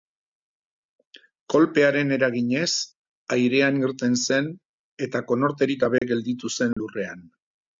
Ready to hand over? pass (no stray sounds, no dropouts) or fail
fail